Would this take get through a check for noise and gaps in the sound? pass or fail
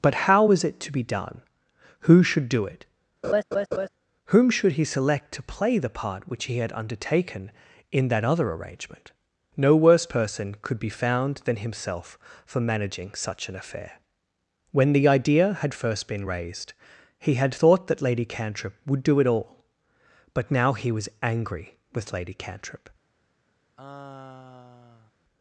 fail